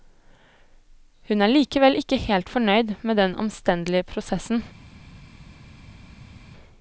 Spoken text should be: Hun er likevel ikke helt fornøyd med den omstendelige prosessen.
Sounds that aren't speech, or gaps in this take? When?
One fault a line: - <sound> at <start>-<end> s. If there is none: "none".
none